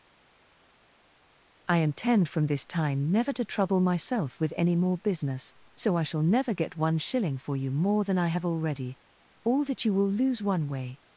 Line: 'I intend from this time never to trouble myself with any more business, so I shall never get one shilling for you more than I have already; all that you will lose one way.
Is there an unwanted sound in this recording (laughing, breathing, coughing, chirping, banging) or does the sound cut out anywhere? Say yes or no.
no